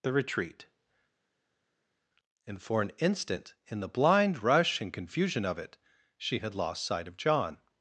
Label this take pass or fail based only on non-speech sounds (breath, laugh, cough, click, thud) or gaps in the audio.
pass